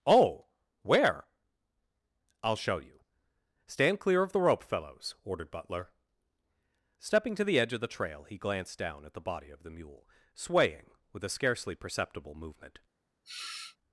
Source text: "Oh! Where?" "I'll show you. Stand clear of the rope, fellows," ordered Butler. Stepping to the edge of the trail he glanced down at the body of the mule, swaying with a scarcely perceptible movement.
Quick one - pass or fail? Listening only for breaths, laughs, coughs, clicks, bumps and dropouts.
fail